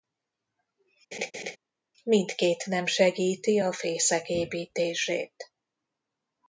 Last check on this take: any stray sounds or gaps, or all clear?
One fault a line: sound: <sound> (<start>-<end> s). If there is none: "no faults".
sound: laugh (1.1-1.6 s)